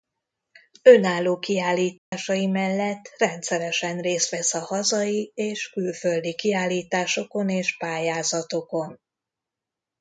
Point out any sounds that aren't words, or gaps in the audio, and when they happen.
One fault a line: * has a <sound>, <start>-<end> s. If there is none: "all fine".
* has a dropout, 2.0-2.1 s